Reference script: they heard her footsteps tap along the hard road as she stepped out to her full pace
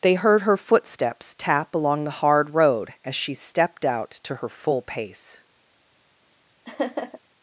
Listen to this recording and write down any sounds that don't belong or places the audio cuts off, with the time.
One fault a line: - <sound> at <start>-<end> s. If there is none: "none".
- laugh at 6.7-7.2 s